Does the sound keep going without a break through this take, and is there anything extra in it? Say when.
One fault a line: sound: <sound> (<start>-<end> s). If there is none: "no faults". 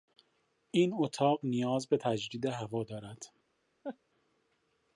sound: laugh (3.8-4.0 s)